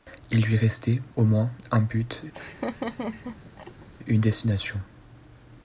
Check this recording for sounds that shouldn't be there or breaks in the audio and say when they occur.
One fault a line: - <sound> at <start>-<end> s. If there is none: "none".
- laugh at 2.3-3.9 s